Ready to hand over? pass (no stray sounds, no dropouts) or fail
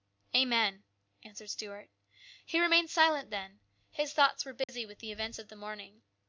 fail